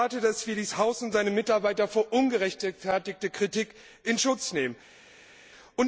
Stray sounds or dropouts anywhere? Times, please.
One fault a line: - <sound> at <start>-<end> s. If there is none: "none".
none